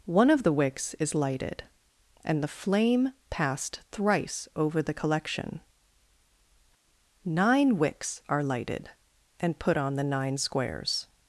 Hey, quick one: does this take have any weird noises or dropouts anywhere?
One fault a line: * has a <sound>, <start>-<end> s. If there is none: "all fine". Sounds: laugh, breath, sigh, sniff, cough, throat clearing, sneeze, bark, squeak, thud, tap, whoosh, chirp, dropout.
all fine